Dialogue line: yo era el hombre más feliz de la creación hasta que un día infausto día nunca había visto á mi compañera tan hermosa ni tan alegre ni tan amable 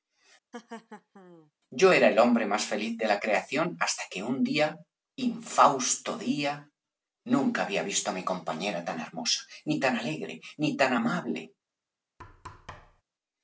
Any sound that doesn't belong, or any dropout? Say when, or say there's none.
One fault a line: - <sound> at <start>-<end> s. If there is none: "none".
- laugh at 0.5-1.5 s
- thud at 12.2-13.0 s